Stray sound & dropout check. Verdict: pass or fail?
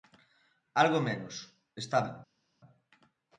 pass